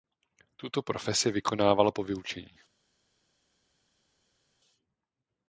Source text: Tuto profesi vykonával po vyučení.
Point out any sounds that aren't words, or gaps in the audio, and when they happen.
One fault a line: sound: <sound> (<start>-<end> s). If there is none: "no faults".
no faults